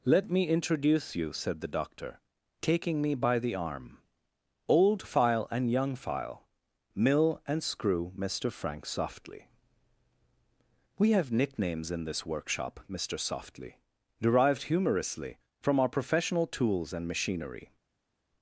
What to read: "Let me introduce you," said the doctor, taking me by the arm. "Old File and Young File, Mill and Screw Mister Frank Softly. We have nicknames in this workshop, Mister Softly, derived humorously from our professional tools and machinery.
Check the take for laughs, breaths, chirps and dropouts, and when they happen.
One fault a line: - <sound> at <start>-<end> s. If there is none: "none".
none